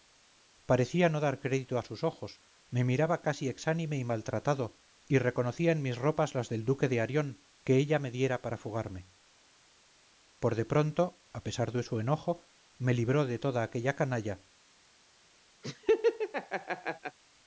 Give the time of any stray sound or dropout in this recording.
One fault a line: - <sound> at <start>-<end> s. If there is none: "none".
- laugh at 15.6-17.2 s